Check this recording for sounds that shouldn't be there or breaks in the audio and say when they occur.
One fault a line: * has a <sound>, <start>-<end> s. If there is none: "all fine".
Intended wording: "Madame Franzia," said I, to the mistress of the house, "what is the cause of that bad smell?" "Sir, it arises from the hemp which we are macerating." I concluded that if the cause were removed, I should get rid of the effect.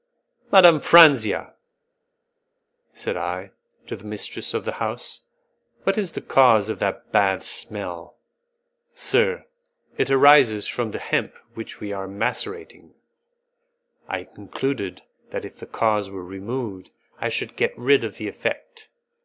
all fine